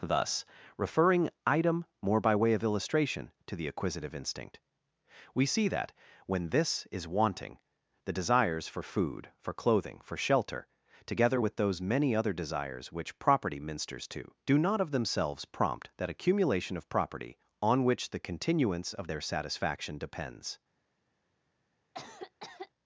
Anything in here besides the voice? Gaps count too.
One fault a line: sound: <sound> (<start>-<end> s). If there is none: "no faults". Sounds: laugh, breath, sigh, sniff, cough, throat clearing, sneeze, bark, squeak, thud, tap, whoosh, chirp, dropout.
sound: cough (21.9-22.7 s)